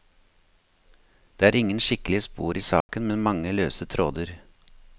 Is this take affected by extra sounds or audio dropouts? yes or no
yes